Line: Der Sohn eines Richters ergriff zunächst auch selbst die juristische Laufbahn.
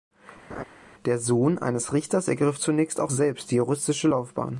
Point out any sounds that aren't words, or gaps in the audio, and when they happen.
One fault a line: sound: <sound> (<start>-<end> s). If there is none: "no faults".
sound: laugh (0.5-0.6 s)